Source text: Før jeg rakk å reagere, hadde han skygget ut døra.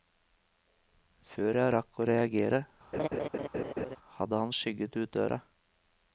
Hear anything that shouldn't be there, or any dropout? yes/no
yes